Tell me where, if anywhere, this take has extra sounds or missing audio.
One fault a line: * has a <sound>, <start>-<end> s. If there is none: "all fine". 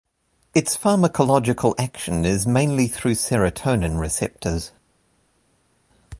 all fine